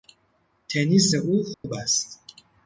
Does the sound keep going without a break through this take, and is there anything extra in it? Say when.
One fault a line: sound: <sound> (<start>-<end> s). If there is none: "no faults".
sound: dropout (1.5-1.6 s)